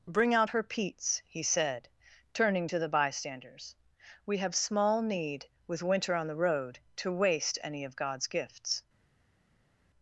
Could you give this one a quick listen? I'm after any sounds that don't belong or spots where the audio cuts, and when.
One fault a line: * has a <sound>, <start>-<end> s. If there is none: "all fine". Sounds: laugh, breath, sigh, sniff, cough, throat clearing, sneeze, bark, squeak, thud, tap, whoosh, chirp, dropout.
all fine